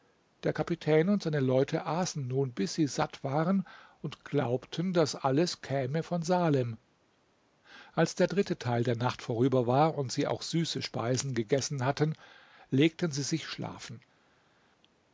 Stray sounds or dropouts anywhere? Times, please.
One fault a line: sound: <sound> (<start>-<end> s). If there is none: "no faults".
no faults